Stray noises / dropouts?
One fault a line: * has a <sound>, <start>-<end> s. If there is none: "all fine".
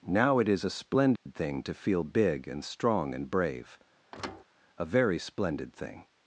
* has a dropout, 1.2-1.3 s
* has a thud, 4.1-4.4 s